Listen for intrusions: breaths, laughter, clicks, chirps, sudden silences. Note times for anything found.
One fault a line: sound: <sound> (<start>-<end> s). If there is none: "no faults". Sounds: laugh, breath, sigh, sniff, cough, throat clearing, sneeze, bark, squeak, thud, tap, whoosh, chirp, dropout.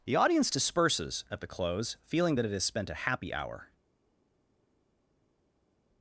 no faults